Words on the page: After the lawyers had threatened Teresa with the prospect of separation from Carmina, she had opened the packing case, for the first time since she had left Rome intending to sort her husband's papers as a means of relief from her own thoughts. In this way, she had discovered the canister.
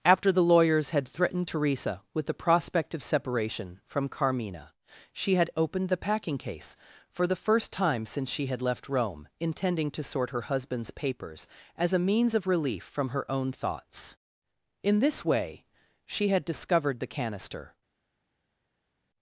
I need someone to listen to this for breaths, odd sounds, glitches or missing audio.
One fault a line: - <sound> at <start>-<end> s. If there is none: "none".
none